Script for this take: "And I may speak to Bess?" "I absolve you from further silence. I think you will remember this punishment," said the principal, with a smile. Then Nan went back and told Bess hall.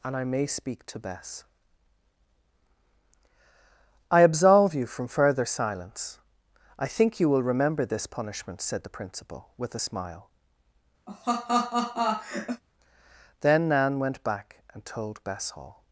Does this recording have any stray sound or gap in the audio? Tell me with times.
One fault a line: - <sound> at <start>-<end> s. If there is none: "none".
- laugh at 11.1-12.6 s